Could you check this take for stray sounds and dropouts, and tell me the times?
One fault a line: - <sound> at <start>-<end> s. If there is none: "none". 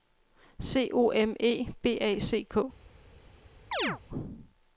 - chirp at 3.7-4.0 s